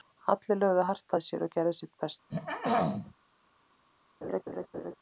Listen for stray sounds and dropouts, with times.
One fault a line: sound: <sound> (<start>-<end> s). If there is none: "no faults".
sound: throat clearing (2.3-3.1 s)
sound: laugh (4.2-5.0 s)